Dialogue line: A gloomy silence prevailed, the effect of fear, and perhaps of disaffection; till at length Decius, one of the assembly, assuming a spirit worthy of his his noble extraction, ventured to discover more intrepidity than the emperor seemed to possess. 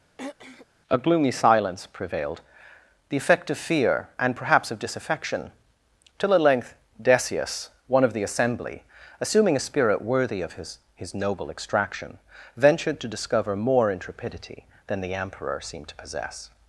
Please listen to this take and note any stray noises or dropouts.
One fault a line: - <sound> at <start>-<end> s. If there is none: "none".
- throat clearing at 0.2-0.7 s